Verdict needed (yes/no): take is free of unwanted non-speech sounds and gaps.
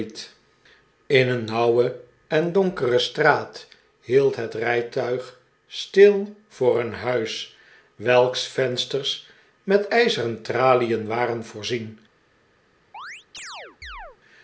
no